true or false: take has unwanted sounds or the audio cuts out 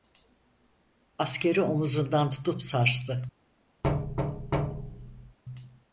true